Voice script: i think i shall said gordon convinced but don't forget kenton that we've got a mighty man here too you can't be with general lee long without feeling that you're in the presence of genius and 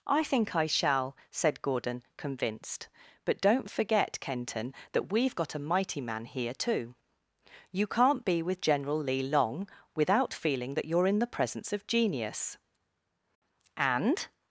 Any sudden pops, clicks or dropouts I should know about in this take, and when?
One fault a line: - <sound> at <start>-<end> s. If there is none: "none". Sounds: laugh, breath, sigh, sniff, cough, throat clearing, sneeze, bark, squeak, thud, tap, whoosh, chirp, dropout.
none